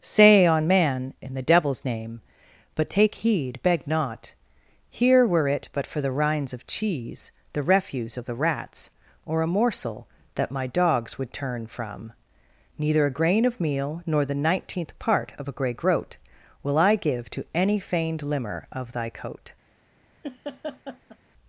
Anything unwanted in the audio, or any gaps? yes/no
yes